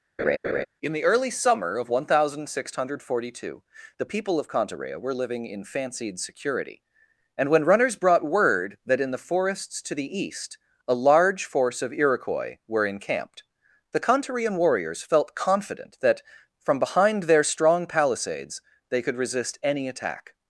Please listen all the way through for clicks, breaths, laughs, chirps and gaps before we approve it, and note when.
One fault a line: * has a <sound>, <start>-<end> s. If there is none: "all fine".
* has a laugh, 0.2-0.7 s